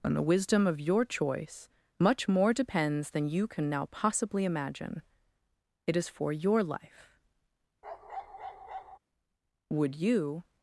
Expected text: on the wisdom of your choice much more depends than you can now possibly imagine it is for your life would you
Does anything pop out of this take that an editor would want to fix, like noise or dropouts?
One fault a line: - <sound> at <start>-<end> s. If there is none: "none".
- bark at 7.8-9.0 s